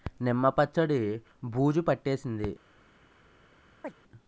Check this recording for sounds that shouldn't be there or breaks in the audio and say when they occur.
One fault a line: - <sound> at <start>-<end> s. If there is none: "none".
- chirp at 3.8-3.9 s